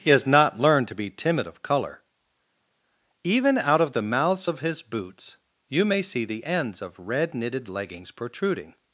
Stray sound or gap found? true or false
false